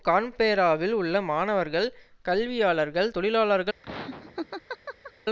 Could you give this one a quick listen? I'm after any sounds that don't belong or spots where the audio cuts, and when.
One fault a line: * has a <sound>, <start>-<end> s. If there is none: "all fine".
* has a laugh, 3.8-5.1 s